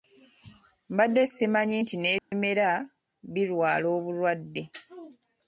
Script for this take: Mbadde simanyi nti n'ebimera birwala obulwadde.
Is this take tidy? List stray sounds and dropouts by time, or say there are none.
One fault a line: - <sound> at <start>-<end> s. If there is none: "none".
- dropout at 2.2-2.3 s